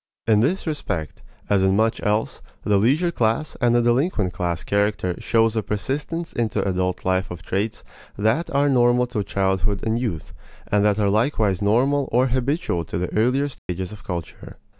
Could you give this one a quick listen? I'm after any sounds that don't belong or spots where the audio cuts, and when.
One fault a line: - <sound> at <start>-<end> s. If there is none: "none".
- dropout at 13.6-13.7 s